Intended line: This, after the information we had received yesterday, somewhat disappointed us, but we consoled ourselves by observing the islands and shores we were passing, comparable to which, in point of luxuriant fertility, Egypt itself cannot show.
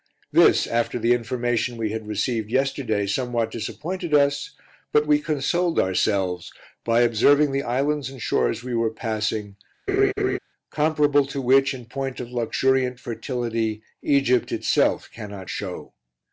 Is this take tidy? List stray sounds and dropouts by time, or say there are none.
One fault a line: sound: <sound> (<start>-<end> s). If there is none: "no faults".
sound: laugh (9.9-10.4 s)